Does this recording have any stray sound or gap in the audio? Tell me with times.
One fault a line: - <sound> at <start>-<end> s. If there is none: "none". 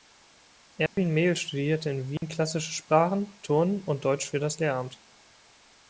- dropout at 0.9-1.0 s
- dropout at 2.2-2.2 s